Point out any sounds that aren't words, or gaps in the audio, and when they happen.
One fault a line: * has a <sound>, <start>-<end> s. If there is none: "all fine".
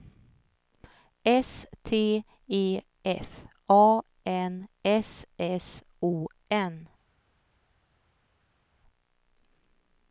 all fine